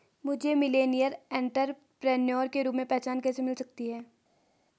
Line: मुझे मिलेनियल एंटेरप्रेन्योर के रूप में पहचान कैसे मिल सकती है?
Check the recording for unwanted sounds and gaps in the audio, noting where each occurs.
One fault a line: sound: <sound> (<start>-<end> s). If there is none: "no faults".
no faults